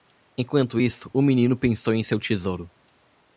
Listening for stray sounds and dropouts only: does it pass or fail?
pass